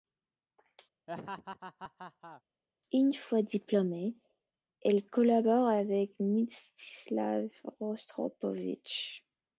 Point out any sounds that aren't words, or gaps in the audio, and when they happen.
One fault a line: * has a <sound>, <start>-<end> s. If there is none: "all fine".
* has a laugh, 1.1-2.4 s